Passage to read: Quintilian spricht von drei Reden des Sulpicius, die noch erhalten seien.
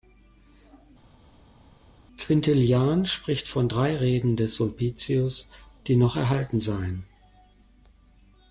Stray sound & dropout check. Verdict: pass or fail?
pass